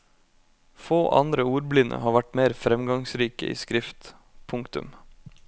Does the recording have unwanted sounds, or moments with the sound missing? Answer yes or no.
no